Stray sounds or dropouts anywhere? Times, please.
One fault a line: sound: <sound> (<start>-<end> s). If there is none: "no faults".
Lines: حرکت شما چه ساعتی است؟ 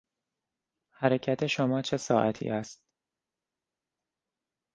no faults